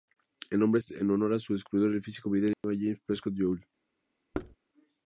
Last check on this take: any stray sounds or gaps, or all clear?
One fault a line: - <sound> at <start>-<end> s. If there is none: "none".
- dropout at 2.5-2.6 s
- thud at 4.3-4.6 s